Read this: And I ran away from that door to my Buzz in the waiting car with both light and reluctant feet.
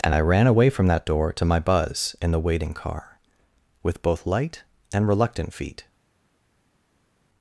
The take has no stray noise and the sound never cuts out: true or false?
true